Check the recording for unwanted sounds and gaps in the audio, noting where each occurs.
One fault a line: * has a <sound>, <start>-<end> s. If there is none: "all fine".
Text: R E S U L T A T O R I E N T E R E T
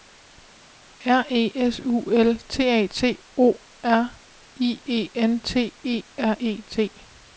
all fine